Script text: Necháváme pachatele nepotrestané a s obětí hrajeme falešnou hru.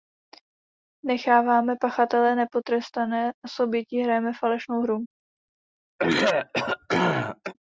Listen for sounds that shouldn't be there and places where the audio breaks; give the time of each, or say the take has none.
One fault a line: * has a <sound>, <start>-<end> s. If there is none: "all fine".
* has a throat clearing, 6.0-7.5 s